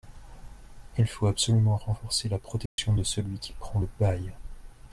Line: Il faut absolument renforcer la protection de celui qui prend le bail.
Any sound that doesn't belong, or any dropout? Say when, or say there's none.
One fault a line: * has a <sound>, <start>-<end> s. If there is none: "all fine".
* has a dropout, 2.7-2.8 s